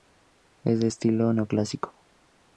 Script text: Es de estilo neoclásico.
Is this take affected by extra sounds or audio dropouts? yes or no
no